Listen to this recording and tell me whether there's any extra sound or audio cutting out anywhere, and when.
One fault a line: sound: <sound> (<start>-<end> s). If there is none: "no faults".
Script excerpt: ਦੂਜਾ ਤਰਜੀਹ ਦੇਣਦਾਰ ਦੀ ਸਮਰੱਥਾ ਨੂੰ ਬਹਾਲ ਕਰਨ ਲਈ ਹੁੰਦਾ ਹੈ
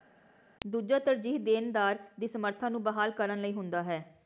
no faults